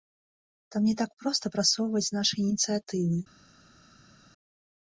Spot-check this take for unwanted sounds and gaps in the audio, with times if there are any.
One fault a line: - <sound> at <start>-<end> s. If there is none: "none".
none